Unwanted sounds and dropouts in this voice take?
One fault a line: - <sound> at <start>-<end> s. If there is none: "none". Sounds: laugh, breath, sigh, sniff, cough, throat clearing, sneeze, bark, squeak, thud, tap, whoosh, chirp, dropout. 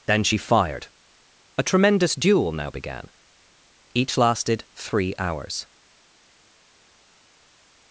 none